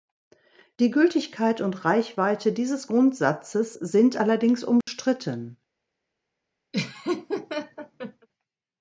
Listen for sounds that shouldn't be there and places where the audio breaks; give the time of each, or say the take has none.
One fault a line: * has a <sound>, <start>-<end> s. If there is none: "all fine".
* has a dropout, 4.8-4.9 s
* has a laugh, 6.7-8.3 s